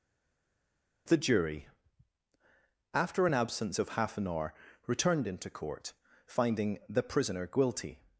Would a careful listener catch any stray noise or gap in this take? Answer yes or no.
no